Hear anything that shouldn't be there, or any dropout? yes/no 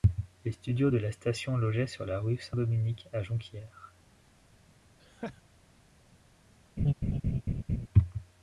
yes